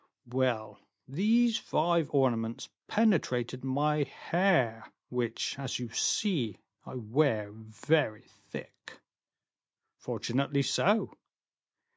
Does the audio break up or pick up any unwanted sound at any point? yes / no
no